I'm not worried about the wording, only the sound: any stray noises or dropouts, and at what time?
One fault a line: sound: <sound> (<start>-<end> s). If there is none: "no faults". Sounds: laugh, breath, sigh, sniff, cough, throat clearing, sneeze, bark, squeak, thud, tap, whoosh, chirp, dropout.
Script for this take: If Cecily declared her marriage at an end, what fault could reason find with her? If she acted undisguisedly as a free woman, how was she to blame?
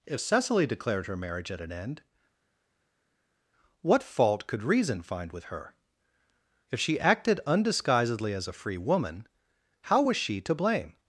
no faults